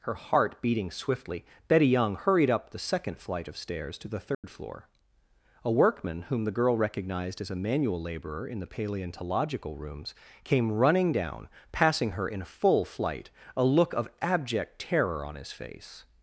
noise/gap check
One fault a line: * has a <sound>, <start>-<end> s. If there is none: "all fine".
* has a dropout, 4.3-4.4 s